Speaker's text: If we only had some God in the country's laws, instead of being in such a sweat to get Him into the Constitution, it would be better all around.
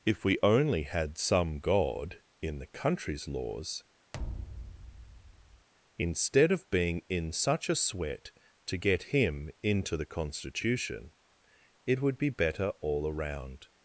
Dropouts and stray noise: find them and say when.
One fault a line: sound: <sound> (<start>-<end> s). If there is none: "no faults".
sound: thud (4.1-5.7 s)